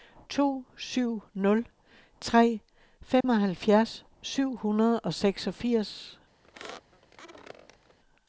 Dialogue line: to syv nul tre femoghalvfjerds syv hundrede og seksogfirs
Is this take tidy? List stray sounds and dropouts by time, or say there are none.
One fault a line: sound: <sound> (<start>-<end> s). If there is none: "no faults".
sound: dropout (3.2-3.2 s)
sound: squeak (6.4-8.0 s)